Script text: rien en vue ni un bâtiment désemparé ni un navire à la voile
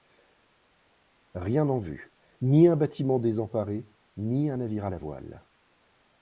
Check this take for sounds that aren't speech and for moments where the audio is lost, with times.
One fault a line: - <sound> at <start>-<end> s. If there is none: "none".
none